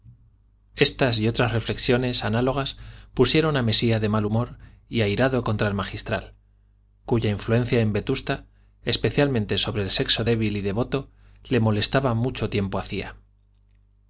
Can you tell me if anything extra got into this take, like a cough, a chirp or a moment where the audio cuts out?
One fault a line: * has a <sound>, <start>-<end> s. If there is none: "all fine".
all fine